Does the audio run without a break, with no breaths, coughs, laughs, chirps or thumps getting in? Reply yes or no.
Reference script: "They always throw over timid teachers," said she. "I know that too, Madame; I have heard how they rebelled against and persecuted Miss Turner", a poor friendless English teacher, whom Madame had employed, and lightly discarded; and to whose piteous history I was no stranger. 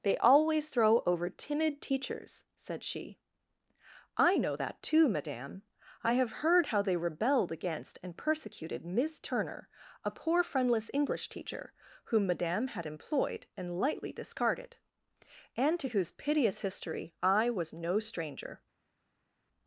yes